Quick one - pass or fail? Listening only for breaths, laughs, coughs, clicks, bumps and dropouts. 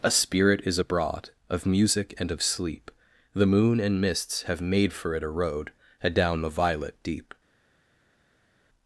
pass